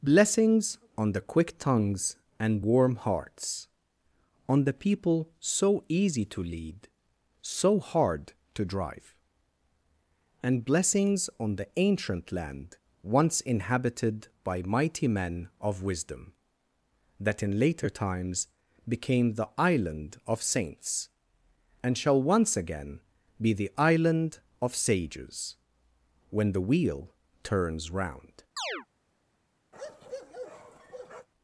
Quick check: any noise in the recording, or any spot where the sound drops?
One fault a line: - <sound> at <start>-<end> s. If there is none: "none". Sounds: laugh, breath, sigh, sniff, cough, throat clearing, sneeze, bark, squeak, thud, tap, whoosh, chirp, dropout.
- chirp at 28.6-28.9 s
- bark at 29.7-31.3 s